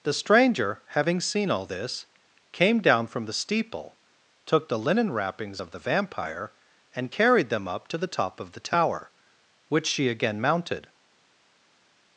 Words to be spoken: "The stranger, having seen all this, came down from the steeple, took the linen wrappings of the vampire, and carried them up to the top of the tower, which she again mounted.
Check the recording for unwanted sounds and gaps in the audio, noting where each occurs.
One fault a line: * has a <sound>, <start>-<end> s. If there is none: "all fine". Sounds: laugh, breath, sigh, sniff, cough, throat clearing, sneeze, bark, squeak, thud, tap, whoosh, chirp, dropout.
all fine